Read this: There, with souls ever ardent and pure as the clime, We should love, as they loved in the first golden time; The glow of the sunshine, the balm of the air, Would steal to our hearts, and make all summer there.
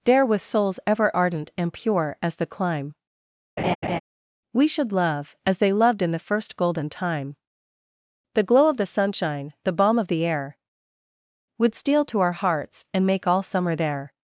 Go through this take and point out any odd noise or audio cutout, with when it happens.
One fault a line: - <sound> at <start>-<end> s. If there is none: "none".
- laugh at 3.6-4.0 s